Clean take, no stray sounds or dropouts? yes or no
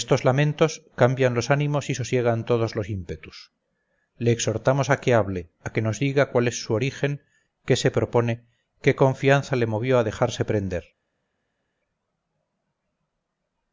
yes